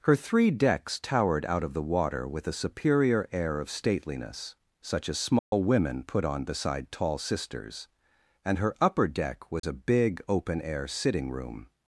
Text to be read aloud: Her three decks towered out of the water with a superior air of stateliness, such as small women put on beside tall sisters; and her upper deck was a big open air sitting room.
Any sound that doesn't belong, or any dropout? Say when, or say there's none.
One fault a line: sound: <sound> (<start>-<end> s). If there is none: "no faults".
sound: dropout (5.4-5.5 s)
sound: dropout (9.6-9.6 s)